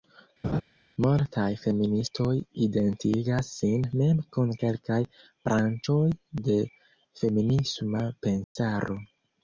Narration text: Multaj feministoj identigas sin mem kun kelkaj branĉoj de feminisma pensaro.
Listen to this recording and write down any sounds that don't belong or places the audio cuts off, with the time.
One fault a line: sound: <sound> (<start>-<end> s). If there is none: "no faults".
sound: laugh (0.4-0.6 s)
sound: dropout (8.4-8.6 s)